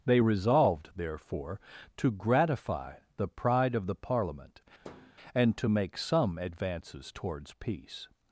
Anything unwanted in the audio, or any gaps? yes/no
yes